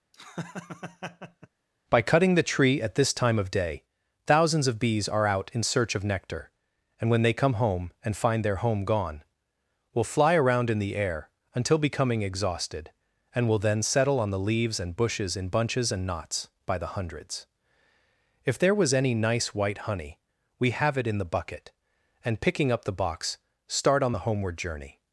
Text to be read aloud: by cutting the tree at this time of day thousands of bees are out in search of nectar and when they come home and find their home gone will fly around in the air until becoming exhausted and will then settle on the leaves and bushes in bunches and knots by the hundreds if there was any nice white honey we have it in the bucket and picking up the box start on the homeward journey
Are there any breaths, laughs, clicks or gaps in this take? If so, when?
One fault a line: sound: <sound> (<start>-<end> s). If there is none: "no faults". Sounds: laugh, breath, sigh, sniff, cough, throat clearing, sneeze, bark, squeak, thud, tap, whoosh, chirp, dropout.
sound: laugh (0.1-1.5 s)